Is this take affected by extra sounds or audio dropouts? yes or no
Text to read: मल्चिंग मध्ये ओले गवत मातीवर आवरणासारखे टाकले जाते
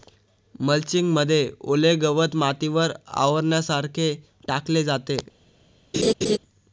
yes